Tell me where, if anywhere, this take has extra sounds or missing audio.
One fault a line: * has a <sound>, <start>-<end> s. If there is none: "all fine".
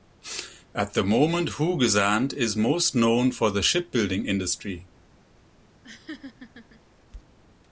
* has a laugh, 5.8-6.8 s